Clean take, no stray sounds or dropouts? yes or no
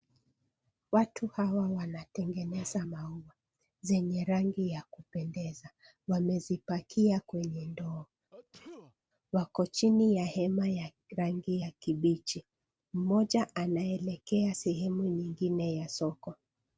no